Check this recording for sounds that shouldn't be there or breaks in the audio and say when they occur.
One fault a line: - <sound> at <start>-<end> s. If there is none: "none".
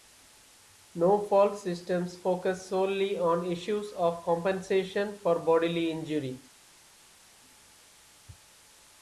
none